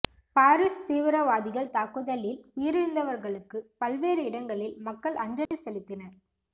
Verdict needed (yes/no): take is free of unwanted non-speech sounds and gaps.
no